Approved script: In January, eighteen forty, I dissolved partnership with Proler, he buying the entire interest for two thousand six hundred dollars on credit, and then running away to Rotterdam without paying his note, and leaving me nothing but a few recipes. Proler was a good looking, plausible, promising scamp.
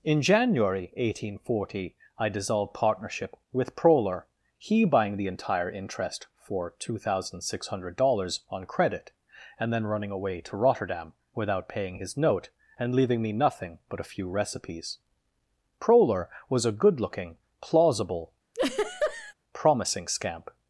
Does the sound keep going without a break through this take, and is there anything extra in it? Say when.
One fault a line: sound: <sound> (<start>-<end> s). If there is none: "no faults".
sound: laugh (18.5-19.3 s)